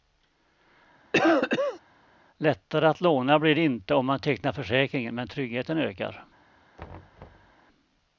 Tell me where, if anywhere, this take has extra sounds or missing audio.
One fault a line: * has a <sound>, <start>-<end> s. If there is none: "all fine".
* has a cough, 1.1-1.8 s
* has a thud, 6.8-7.6 s